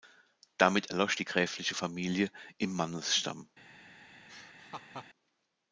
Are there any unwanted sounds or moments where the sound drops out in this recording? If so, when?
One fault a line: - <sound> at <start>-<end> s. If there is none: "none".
- laugh at 4.3-5.1 s